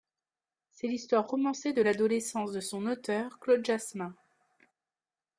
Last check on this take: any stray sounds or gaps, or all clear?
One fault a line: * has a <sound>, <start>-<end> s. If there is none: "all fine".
all fine